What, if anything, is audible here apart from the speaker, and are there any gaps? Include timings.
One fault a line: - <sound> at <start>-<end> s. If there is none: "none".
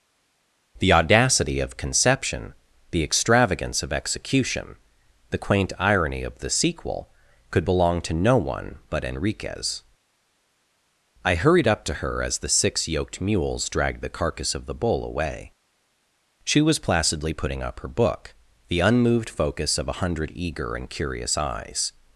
none